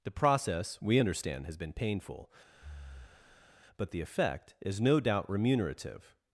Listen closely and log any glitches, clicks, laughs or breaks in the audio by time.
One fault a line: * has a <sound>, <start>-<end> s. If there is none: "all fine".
* has a breath, 2.5-3.5 s